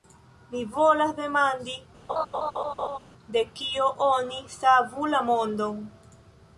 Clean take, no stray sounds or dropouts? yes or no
no